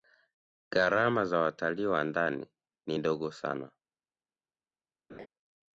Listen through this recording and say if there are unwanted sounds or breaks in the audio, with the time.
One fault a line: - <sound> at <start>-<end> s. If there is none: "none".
- laugh at 5.1-5.3 s